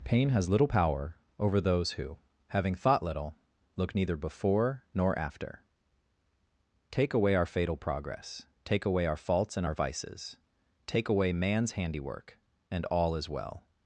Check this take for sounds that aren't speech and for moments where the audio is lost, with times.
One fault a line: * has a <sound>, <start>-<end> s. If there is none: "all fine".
all fine